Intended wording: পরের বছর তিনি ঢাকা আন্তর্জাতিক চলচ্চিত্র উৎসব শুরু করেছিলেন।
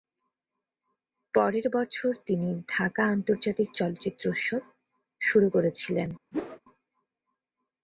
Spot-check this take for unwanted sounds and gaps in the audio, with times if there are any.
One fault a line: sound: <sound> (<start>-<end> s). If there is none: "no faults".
sound: whoosh (6.3-6.6 s)